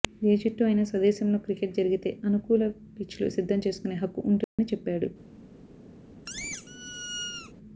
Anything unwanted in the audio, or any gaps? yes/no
yes